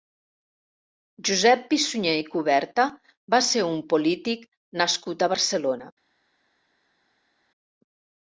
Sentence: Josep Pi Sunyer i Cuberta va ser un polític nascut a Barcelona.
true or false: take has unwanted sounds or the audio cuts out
false